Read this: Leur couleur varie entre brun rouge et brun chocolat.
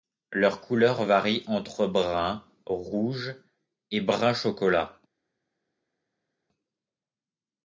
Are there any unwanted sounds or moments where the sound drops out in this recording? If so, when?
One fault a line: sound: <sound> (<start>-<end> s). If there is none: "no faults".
no faults